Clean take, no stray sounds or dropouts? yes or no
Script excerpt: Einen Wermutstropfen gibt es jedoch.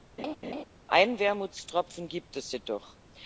no